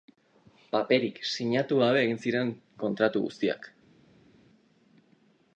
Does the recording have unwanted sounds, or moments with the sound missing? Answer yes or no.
no